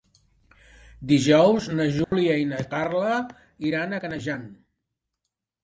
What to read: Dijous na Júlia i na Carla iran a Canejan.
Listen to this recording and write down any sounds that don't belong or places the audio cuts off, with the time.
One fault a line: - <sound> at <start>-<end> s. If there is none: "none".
- dropout at 2.0-2.1 s